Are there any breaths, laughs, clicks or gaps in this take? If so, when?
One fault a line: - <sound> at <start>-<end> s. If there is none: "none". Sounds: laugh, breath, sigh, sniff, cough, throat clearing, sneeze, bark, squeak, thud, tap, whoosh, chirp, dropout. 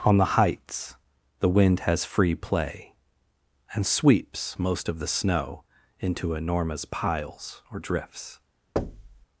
- thud at 8.8-9.3 s